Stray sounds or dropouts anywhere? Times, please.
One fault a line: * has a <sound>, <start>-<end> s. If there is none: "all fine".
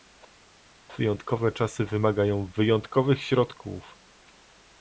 all fine